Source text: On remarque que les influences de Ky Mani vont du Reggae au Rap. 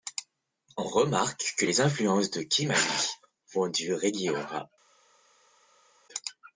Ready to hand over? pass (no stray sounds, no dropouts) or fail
pass